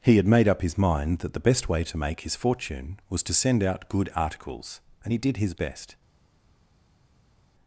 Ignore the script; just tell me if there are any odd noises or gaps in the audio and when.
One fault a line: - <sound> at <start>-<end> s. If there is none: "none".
none